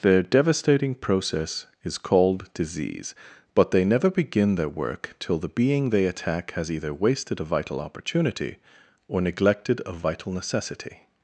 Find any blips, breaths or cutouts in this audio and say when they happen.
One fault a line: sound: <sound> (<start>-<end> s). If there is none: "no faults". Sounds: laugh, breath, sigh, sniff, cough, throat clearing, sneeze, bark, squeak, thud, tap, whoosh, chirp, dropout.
no faults